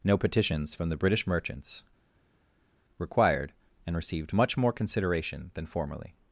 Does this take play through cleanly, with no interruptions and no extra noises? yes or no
yes